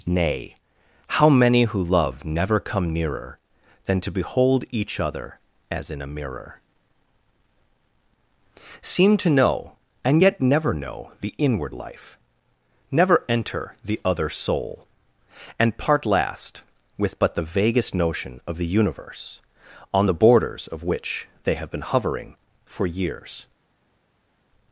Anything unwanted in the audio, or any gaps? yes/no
no